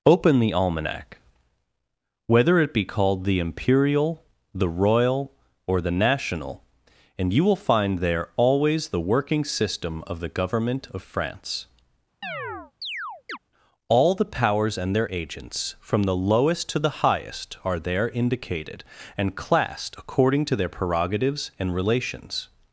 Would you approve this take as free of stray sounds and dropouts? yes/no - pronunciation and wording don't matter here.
no